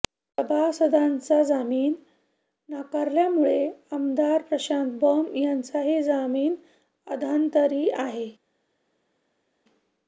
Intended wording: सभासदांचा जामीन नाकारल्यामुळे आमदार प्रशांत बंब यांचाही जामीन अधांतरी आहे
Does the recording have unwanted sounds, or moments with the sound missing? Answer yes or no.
no